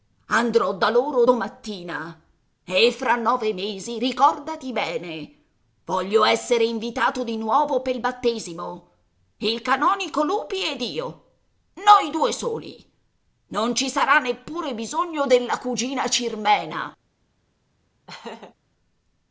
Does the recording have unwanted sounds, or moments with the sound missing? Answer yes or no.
yes